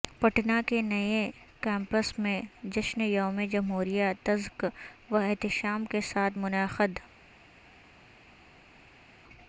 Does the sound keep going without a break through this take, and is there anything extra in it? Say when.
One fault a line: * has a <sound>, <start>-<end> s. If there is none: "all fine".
all fine